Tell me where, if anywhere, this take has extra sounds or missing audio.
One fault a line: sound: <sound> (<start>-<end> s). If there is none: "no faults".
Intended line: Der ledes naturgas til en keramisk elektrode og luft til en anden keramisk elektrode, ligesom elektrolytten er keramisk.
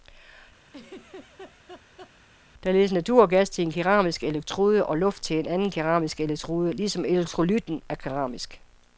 sound: laugh (0.7-2.1 s)